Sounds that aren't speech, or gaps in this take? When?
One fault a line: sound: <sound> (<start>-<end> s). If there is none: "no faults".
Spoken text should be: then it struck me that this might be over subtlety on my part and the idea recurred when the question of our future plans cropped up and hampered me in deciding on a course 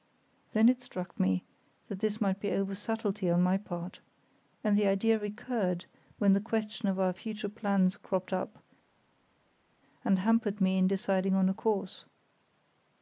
no faults